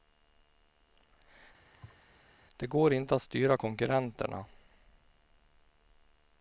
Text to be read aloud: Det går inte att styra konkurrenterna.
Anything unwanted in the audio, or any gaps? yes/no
yes